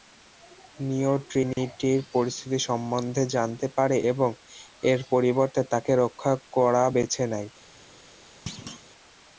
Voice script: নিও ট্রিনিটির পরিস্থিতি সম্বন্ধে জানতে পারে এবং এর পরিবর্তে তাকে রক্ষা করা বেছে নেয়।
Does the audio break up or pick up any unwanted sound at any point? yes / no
yes